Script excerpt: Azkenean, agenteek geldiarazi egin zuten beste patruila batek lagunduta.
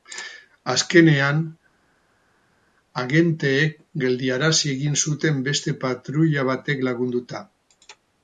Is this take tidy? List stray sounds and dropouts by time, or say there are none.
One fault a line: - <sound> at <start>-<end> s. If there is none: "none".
none